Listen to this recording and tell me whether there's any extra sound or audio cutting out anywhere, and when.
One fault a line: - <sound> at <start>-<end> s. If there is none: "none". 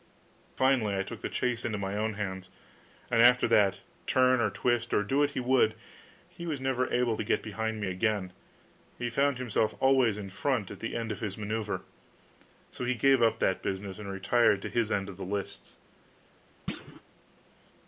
- thud at 16.7-17.0 s